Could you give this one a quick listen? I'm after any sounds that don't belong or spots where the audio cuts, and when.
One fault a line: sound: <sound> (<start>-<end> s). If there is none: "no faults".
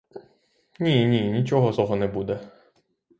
no faults